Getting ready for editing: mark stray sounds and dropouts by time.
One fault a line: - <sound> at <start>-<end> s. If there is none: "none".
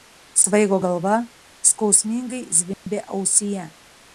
- dropout at 2.7-2.9 s